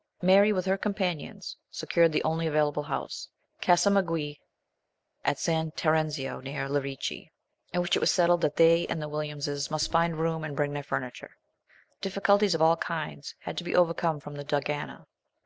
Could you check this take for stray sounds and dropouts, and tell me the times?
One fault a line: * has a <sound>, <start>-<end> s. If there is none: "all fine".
all fine